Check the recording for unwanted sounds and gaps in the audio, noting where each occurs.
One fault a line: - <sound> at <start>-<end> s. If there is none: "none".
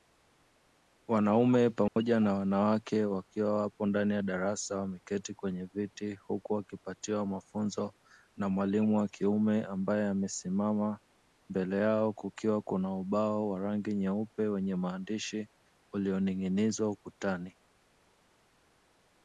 - dropout at 1.9-2.0 s